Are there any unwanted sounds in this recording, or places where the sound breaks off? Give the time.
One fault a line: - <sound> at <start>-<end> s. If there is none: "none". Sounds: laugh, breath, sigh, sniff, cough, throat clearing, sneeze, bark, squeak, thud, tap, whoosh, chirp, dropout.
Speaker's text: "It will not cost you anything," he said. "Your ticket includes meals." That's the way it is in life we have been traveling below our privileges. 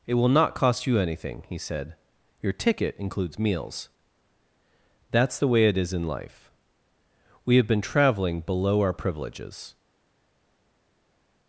none